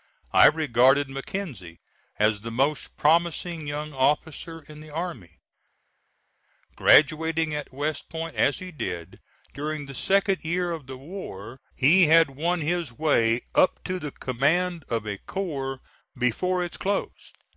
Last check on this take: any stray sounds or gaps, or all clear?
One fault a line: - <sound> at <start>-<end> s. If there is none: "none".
none